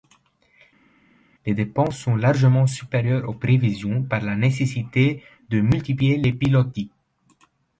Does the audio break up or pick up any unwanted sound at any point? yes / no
no